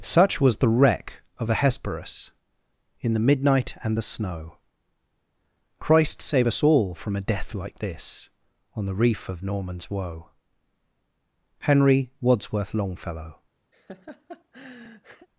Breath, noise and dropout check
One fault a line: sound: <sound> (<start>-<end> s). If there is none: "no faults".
sound: laugh (13.7-15.3 s)